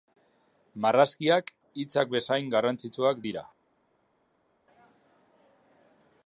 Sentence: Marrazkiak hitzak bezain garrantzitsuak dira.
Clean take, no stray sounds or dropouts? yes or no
yes